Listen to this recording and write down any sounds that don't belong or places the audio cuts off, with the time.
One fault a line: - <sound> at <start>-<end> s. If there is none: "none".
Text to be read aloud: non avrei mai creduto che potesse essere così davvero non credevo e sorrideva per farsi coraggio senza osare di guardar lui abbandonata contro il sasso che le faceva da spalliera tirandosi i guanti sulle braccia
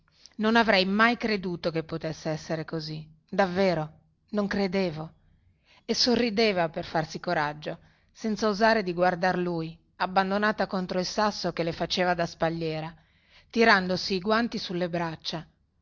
none